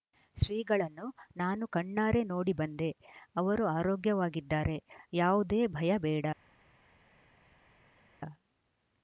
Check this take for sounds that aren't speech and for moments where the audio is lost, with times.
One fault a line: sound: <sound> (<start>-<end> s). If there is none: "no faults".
no faults